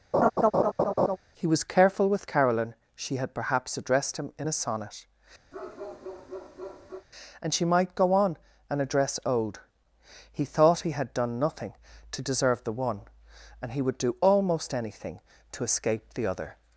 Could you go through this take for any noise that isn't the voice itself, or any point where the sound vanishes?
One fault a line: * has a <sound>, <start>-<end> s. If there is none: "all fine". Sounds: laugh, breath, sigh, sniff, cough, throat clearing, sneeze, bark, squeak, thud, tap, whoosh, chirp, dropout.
* has a laugh, 0.1-1.2 s
* has a bark, 5.5-7.1 s